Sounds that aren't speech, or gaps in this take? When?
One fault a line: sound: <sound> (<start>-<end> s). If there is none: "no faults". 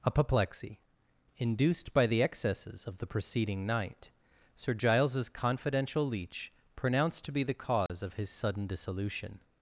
sound: dropout (7.9-7.9 s)